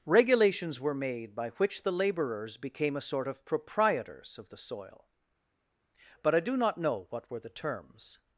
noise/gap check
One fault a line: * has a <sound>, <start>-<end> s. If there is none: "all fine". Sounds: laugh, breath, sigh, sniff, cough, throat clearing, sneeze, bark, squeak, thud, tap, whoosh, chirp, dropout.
all fine